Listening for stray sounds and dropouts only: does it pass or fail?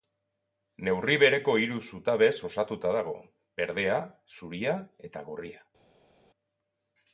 pass